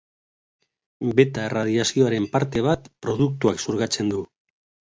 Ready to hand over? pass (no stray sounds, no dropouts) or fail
pass